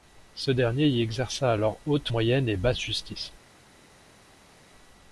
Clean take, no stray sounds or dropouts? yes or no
yes